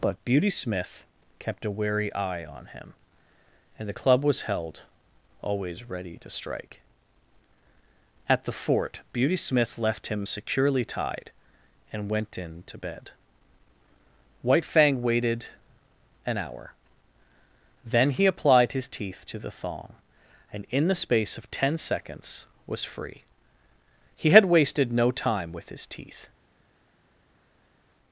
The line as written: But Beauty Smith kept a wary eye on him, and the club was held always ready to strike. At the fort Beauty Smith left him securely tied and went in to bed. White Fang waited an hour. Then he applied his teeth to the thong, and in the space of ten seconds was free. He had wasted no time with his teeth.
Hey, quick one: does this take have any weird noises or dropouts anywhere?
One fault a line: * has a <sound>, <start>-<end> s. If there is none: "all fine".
all fine